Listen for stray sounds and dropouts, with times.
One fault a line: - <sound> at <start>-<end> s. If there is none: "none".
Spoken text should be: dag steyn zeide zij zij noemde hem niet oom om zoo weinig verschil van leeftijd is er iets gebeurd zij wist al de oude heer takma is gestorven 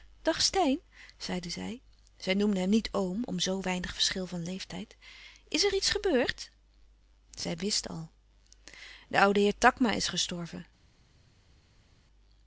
none